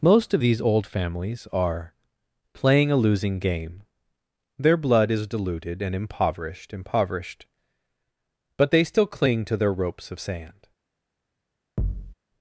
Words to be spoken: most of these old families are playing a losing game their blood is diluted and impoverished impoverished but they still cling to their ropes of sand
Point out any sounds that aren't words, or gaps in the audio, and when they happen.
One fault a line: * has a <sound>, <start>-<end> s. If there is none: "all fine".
* has a thud, 11.8-12.1 s